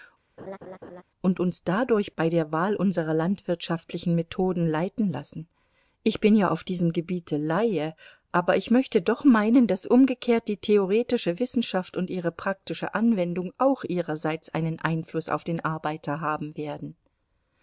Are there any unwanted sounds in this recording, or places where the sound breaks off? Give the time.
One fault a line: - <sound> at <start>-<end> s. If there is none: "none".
- laugh at 0.4-1.0 s